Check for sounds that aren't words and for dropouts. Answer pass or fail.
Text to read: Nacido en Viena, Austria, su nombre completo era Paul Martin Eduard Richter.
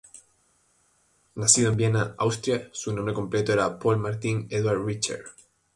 pass